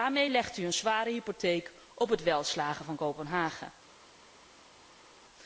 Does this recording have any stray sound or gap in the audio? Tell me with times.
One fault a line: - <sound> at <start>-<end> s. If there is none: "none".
none